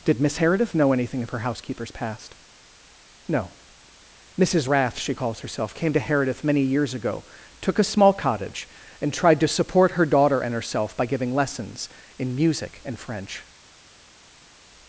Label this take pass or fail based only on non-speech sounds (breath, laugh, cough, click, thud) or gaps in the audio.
pass